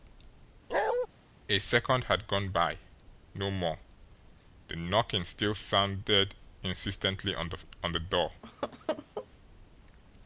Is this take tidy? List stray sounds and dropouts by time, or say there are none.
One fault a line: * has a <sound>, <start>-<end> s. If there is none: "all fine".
* has a bark, 0.7-1.1 s
* has a laugh, 8.4-9.3 s